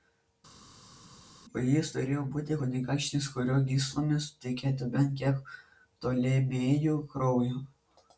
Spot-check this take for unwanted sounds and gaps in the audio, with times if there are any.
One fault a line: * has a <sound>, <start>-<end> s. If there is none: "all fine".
all fine